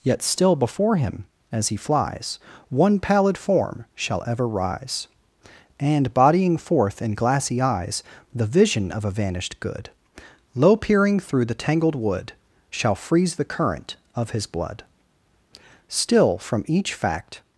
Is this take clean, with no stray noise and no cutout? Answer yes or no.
yes